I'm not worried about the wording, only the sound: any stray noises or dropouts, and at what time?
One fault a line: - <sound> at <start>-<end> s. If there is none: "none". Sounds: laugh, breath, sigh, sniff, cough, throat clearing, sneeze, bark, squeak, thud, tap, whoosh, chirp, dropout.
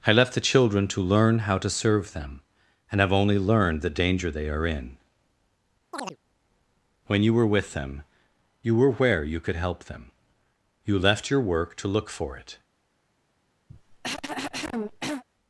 - chirp at 5.9-6.2 s
- cough at 13.7-15.2 s